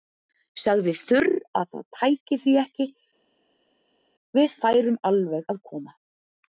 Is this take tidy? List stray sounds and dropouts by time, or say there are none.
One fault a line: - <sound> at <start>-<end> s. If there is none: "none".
none